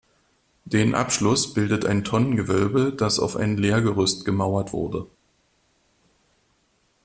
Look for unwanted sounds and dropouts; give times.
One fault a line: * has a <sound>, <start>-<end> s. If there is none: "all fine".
all fine